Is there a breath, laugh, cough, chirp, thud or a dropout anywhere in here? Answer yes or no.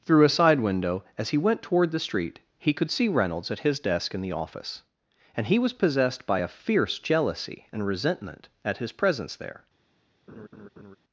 yes